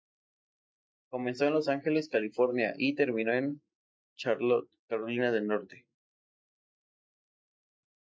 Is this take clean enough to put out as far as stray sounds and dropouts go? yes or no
yes